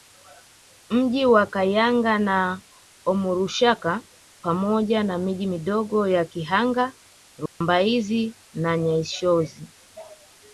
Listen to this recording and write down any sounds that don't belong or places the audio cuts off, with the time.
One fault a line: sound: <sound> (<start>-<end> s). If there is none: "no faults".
sound: dropout (7.5-7.6 s)